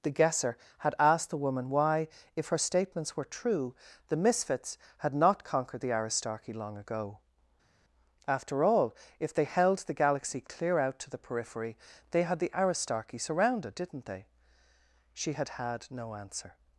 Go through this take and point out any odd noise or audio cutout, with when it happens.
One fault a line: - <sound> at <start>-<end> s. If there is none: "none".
none